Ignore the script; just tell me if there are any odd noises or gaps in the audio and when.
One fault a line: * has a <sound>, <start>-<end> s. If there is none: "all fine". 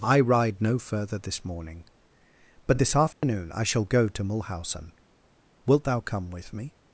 * has a dropout, 3.1-3.2 s